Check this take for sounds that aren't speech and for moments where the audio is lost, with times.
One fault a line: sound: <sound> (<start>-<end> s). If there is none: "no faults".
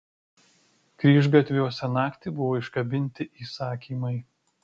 no faults